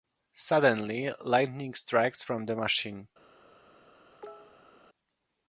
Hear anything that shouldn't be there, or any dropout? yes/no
yes